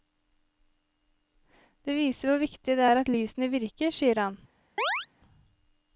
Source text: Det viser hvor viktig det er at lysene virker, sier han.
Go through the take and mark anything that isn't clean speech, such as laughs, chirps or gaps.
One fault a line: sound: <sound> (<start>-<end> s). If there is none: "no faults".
sound: chirp (4.8-5.1 s)